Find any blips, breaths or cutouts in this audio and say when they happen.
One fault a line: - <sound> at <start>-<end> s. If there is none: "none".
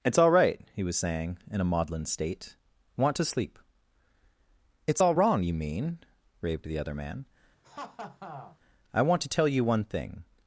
- laugh at 7.6-8.6 s